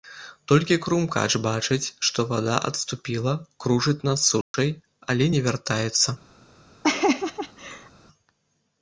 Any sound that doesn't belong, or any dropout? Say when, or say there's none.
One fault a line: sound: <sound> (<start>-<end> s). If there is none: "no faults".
sound: dropout (4.4-4.5 s)
sound: laugh (6.8-7.9 s)